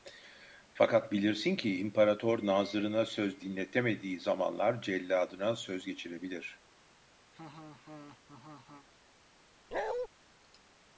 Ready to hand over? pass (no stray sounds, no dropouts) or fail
fail